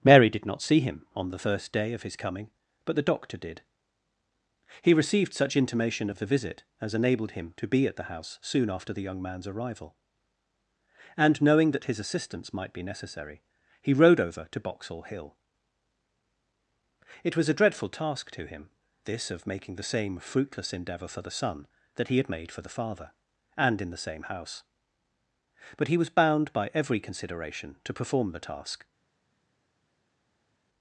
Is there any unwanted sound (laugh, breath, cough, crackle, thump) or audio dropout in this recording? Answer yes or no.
no